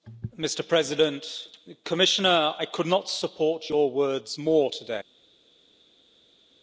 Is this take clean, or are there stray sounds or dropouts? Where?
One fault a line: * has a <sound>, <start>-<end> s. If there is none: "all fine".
all fine